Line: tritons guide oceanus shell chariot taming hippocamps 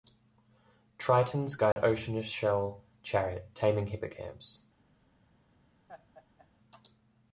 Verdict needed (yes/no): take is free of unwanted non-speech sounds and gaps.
no